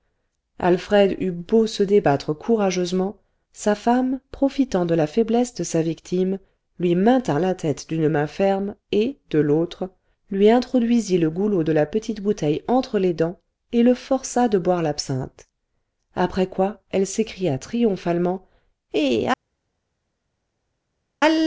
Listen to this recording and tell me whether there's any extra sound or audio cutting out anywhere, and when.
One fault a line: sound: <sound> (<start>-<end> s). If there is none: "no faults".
no faults